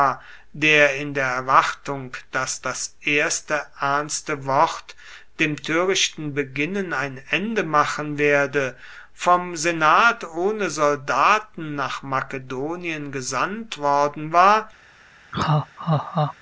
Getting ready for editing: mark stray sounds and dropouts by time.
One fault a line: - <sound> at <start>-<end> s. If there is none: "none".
- laugh at 15.3-16.3 s